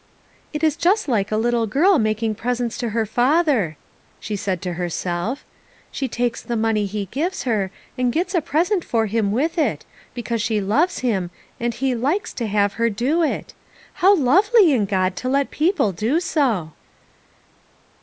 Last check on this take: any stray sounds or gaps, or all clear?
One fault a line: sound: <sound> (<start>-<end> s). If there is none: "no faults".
no faults